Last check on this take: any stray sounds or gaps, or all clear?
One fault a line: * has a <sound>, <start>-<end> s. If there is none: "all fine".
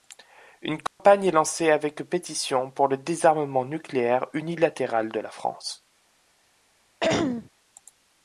* has a dropout, 0.9-1.0 s
* has a throat clearing, 7.0-7.5 s